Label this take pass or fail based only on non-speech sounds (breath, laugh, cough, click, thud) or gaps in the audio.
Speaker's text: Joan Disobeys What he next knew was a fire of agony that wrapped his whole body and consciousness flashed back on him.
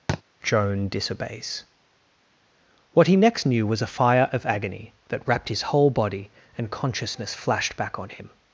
fail